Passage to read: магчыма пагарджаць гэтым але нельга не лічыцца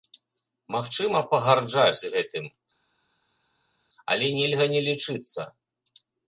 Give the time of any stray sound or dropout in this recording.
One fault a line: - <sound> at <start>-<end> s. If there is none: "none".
none